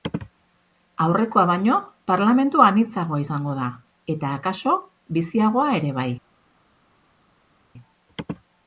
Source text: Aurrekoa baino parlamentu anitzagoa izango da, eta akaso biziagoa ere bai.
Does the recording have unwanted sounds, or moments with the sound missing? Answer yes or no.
no